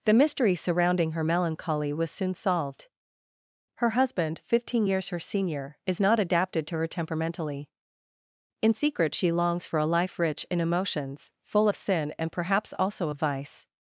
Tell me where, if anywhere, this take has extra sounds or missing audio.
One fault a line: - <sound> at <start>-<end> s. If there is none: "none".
none